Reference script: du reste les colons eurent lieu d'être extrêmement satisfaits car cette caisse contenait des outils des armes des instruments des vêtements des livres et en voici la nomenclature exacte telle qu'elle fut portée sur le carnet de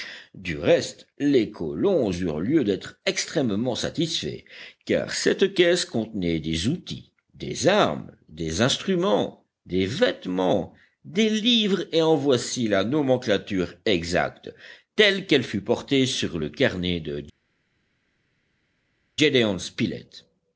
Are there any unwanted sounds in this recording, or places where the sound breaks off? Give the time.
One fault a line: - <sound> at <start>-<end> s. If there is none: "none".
none